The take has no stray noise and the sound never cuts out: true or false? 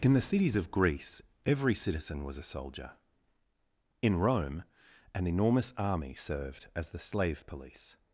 true